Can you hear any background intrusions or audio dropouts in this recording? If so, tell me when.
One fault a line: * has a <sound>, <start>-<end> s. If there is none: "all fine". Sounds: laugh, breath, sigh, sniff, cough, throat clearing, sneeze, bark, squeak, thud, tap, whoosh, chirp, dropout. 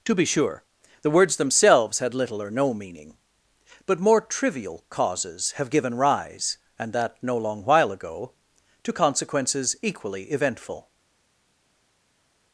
all fine